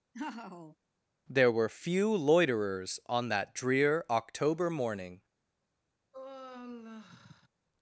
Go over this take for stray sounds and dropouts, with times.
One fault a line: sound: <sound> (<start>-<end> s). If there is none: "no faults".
sound: laugh (0.1-0.8 s)
sound: sigh (6.1-7.5 s)